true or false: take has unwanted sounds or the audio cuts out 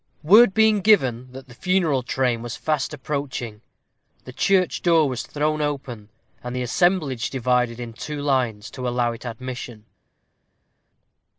false